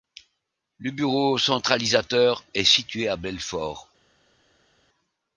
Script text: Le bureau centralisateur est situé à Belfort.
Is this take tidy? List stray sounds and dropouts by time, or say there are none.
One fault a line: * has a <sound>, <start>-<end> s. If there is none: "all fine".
all fine